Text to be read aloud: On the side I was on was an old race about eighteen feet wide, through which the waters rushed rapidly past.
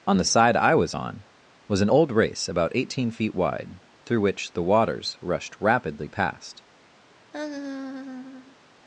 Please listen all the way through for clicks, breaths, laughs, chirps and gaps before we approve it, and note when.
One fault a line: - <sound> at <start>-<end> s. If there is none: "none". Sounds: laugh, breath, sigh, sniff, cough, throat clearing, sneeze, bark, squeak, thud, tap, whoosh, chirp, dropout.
- laugh at 7.3-8.6 s